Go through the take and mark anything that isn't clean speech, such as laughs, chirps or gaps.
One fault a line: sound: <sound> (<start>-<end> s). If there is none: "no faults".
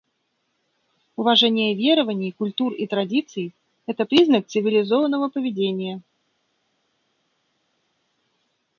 no faults